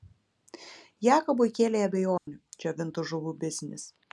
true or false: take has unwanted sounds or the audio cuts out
true